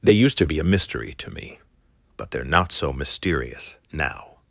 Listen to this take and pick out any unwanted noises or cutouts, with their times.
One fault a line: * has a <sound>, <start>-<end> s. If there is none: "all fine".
all fine